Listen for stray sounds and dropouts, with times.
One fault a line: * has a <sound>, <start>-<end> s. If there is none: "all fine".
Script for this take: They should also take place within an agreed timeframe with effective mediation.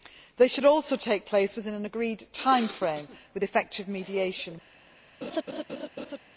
* has a laugh, 5.2-6.2 s